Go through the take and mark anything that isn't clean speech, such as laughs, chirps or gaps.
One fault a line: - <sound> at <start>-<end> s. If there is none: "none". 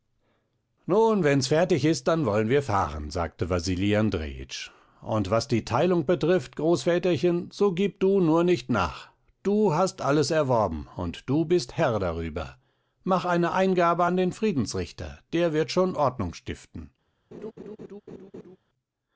- laugh at 17.3-18.6 s